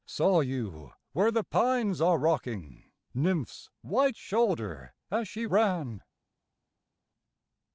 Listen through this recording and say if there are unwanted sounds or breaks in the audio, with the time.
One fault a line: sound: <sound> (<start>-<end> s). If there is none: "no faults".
no faults